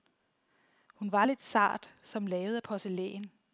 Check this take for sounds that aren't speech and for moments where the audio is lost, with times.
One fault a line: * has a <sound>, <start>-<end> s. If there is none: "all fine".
all fine